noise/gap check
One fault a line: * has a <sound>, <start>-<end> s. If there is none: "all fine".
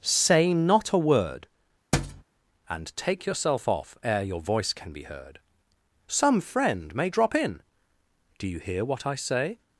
* has a thud, 1.9-2.2 s